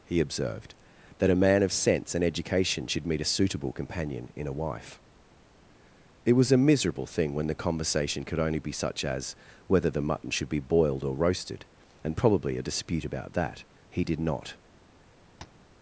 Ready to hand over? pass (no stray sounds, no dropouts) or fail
fail